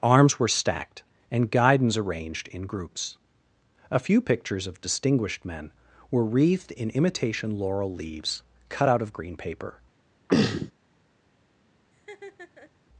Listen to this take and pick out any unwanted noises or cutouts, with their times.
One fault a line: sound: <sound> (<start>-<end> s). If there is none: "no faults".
sound: throat clearing (10.3-10.7 s)
sound: laugh (11.9-12.7 s)